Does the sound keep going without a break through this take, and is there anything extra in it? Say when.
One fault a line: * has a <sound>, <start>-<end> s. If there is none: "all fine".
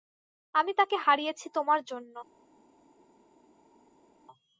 all fine